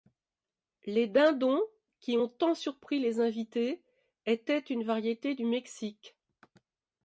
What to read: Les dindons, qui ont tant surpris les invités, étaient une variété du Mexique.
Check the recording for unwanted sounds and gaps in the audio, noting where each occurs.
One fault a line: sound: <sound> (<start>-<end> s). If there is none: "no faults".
no faults